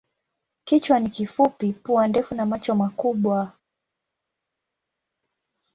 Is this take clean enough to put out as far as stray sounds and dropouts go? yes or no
yes